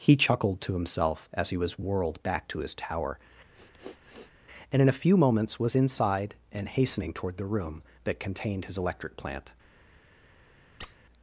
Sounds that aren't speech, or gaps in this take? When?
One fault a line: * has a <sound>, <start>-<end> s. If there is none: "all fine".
* has a sniff, 3.5-4.3 s
* has a squeak, 10.8-11.0 s